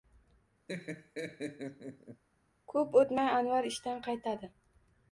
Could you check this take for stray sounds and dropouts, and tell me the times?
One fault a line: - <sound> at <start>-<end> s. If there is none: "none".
- laugh at 0.7-2.2 s